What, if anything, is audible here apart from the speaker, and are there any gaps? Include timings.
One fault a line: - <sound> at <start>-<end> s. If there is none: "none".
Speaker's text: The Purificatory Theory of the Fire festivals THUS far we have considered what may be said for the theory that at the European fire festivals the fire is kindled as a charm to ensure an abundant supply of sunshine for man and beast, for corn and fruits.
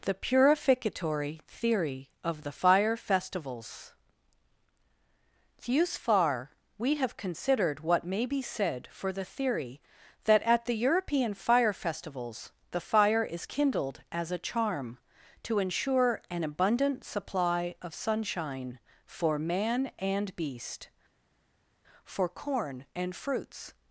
none